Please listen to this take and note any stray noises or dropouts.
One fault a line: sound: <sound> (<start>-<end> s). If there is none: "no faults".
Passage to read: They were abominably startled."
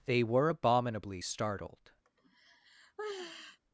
sound: sigh (2.1-3.6 s)